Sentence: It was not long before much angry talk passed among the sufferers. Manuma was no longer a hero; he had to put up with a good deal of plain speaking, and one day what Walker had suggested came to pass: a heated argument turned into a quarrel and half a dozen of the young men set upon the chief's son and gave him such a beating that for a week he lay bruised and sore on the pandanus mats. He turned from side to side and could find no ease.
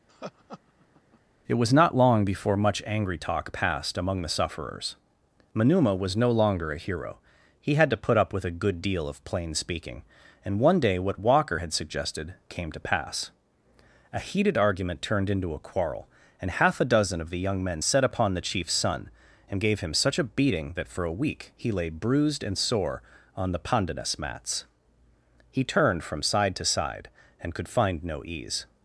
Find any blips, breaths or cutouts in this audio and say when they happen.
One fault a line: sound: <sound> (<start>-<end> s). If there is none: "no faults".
sound: laugh (0.1-1.2 s)